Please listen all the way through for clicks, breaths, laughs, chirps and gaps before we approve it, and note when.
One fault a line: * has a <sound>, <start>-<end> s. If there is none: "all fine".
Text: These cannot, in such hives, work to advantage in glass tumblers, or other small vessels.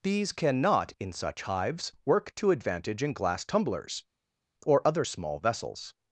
all fine